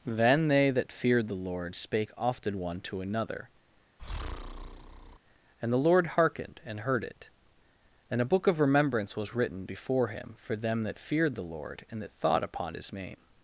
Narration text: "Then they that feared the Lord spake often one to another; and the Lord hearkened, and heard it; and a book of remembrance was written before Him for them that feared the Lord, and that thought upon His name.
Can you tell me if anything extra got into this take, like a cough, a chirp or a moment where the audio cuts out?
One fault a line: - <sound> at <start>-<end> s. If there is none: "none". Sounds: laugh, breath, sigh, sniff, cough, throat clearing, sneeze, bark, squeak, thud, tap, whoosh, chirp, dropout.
- breath at 4.0-5.2 s